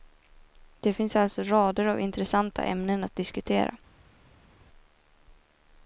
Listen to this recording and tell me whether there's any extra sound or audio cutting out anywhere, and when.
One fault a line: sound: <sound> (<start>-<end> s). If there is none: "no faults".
no faults